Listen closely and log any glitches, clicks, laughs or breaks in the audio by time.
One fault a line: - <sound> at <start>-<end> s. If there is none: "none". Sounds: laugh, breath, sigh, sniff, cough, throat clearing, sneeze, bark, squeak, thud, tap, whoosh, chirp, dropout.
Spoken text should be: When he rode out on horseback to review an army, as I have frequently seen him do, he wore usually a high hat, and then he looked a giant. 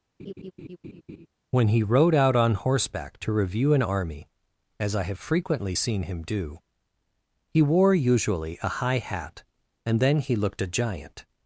- laugh at 0.2-1.3 s